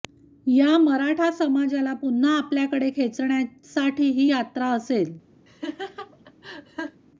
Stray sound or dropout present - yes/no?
yes